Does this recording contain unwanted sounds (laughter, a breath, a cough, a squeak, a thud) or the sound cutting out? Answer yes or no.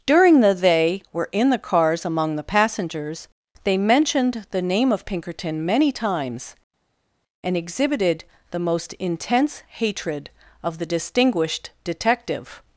no